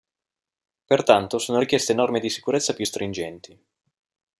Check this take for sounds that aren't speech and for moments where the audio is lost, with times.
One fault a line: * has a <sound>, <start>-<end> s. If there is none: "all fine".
all fine